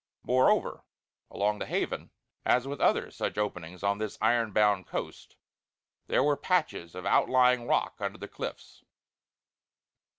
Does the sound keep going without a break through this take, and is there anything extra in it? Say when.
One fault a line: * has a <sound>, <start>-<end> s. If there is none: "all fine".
all fine